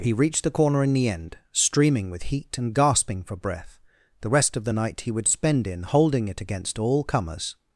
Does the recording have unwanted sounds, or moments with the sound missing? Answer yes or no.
no